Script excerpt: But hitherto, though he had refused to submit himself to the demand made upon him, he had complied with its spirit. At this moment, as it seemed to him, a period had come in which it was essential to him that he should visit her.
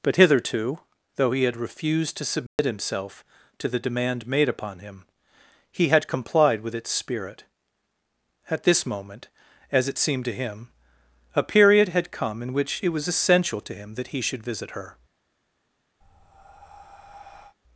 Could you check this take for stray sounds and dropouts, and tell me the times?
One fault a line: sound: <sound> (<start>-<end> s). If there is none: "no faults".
sound: dropout (2.5-2.6 s)
sound: breath (16.0-17.6 s)